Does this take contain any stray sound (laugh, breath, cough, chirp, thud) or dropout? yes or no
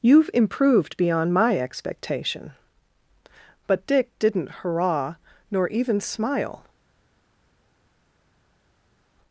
no